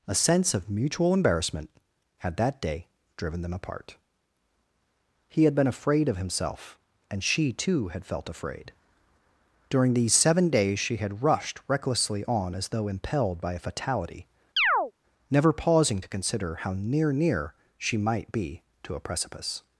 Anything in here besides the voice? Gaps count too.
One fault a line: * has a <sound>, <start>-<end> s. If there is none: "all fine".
* has a chirp, 14.6-14.9 s